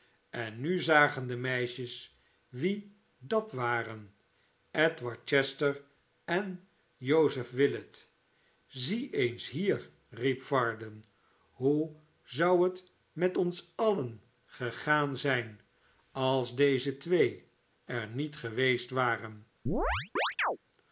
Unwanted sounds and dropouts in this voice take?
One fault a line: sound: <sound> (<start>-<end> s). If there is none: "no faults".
sound: chirp (19.7-20.6 s)